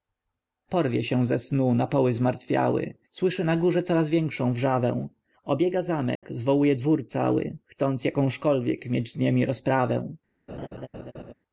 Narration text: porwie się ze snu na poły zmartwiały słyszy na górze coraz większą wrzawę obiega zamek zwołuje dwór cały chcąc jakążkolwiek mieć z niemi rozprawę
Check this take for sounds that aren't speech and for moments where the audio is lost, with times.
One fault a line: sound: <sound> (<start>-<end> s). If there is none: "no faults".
sound: dropout (6.2-6.2 s)
sound: laugh (10.5-11.3 s)